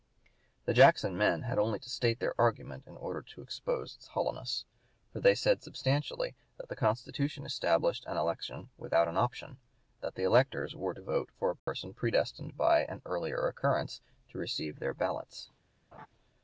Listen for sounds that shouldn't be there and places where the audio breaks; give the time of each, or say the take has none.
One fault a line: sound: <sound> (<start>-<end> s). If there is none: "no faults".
sound: dropout (11.6-11.7 s)
sound: laugh (15.9-16.1 s)